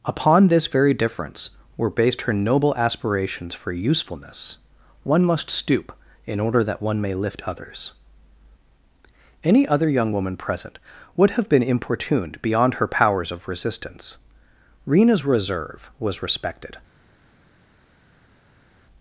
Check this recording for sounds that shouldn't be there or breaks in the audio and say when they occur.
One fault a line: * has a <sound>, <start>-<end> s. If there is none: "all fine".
all fine